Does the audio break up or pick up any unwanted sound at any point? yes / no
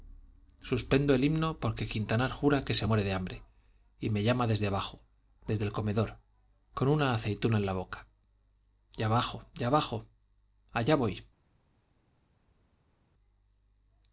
no